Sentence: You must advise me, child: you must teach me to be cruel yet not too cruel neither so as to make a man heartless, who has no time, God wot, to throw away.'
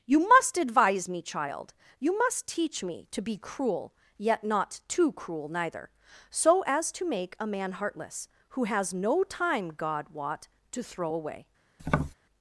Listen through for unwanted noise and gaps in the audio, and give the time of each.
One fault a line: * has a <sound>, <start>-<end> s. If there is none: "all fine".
* has a tap, 11.8-12.1 s